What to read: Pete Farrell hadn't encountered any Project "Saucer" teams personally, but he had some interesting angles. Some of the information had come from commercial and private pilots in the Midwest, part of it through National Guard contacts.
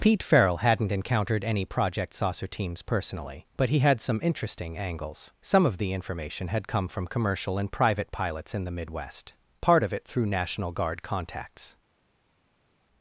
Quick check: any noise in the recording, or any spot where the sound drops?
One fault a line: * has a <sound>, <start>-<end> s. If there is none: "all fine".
all fine